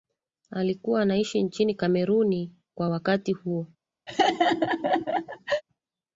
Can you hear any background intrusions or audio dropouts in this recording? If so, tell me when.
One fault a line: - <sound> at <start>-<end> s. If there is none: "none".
- laugh at 4.1-5.6 s